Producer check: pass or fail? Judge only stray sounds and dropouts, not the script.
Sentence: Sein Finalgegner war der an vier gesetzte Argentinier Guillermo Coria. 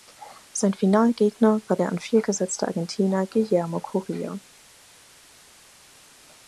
pass